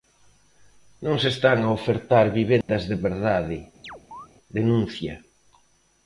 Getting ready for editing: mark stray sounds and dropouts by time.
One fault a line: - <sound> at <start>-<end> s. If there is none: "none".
- dropout at 2.6-2.7 s
- chirp at 3.8-4.3 s